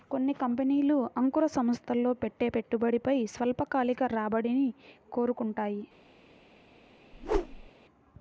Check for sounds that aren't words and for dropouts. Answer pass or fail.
fail